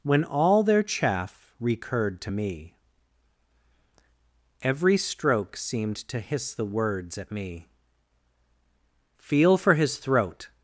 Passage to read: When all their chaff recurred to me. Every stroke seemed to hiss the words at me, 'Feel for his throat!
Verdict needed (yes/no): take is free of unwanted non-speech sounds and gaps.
yes